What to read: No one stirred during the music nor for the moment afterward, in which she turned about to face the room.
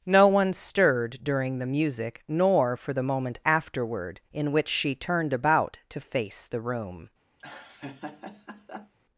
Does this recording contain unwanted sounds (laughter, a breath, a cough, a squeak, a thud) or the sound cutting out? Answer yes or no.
yes